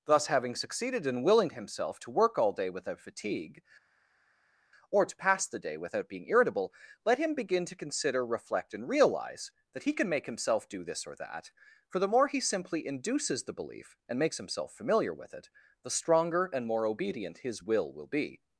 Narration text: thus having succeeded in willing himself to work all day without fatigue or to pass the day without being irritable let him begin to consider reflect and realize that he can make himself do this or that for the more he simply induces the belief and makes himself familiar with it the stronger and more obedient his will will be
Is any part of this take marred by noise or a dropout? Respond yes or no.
no